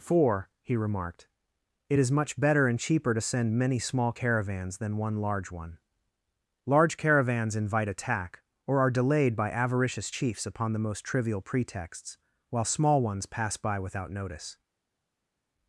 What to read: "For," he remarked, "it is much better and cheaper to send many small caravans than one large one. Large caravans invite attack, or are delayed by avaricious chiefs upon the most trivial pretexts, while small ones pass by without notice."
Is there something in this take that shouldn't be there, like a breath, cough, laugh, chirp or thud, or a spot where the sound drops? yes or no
no